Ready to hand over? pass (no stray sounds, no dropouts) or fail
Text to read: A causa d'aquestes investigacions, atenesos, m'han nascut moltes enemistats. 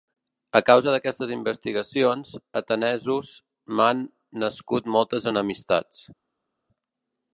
pass